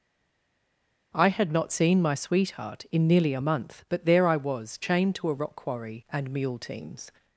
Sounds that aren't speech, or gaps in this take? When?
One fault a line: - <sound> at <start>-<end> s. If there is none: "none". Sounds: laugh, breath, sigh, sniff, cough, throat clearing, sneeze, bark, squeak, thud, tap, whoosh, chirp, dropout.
none